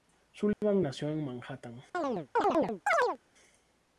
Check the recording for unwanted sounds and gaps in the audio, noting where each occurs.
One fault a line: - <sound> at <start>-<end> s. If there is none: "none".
- dropout at 0.5-0.6 s
- chirp at 1.9-3.2 s